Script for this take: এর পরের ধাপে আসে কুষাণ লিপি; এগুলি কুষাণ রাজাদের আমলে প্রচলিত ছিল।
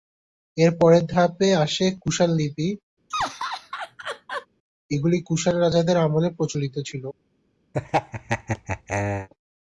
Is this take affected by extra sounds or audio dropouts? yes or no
yes